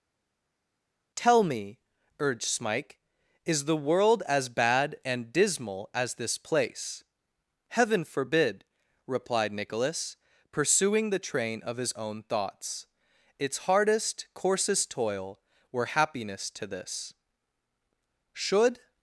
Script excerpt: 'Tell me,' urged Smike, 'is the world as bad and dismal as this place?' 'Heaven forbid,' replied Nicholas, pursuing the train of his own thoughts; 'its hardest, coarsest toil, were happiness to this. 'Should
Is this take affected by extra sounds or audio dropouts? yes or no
no